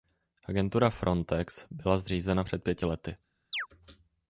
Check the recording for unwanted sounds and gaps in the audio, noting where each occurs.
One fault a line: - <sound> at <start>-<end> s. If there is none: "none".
- chirp at 3.5-3.7 s